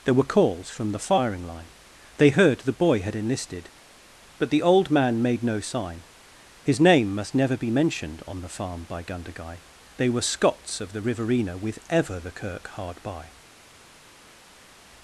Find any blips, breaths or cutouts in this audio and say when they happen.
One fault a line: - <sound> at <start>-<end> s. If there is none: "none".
none